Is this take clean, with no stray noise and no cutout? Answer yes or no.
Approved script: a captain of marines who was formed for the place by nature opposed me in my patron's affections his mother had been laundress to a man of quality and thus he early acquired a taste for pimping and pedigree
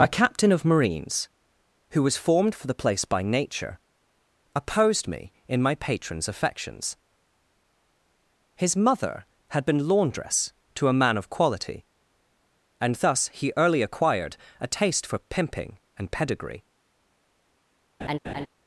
no